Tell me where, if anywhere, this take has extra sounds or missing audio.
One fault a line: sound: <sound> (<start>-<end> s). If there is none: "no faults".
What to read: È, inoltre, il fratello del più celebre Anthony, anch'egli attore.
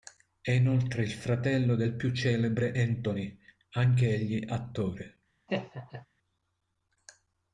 sound: laugh (5.5-6.1 s)